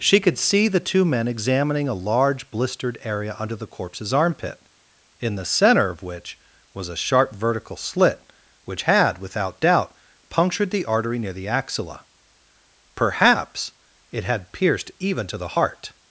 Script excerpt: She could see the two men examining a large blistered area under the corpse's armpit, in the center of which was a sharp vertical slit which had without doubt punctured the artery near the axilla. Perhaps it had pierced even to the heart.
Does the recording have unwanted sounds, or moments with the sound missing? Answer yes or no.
no